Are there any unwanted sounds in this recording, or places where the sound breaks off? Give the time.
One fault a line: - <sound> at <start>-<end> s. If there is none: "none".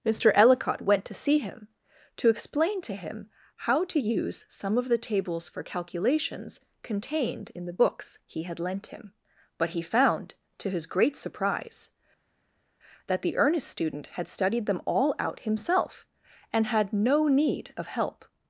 none